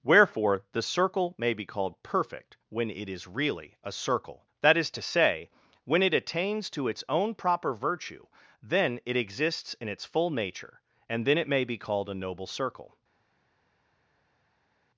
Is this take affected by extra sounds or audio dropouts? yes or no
no